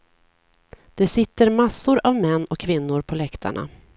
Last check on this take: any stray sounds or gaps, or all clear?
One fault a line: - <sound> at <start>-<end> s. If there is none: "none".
none